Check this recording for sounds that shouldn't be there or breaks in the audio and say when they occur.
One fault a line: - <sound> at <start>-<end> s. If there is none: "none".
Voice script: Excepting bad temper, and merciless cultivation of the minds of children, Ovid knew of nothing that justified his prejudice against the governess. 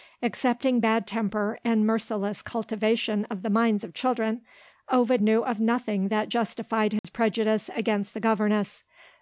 - dropout at 7.0-7.0 s